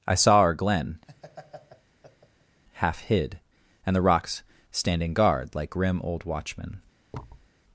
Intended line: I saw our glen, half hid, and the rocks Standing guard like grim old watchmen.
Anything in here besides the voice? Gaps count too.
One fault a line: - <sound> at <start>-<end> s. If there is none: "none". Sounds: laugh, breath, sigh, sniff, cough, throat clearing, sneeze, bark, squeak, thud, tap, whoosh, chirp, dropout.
- laugh at 1.1-2.6 s
- thud at 7.1-7.5 s